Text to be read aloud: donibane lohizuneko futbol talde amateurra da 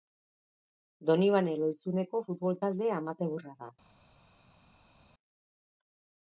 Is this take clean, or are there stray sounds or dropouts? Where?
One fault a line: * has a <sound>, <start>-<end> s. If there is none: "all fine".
all fine